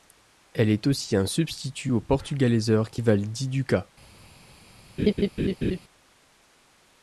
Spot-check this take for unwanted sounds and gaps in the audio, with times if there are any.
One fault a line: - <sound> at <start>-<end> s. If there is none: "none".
- laugh at 5.0-5.8 s